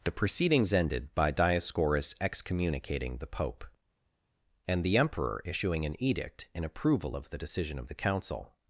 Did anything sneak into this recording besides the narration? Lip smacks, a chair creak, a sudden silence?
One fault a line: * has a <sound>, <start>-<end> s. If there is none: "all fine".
all fine